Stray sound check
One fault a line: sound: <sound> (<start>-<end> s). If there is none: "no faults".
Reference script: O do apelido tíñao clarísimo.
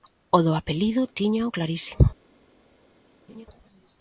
sound: laugh (3.3-3.5 s)